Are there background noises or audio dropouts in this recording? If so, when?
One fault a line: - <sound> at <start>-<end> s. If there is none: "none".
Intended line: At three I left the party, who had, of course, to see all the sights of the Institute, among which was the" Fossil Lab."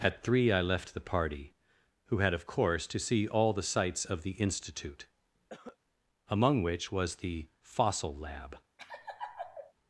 - cough at 5.5-5.8 s
- laugh at 8.8-9.7 s